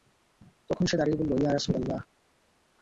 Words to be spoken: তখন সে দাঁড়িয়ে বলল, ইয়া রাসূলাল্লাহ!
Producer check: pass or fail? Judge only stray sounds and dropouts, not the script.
pass